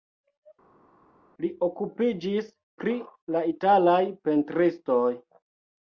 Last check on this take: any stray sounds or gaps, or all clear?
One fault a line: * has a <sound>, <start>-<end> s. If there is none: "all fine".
all fine